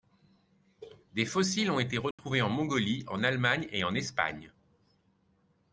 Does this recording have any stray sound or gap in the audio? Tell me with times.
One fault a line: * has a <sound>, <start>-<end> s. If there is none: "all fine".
* has a dropout, 2.1-2.2 s